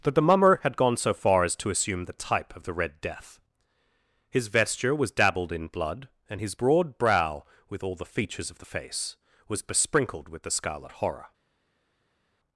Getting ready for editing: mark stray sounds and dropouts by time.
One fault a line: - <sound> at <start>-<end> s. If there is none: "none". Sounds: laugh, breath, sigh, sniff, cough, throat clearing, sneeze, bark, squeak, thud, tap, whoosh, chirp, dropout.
none